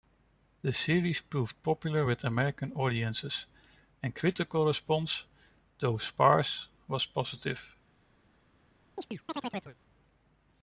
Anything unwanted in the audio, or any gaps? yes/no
yes